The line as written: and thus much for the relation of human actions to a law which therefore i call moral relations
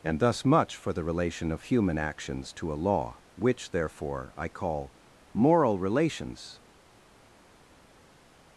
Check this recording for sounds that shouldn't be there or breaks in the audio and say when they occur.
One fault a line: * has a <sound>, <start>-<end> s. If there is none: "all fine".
all fine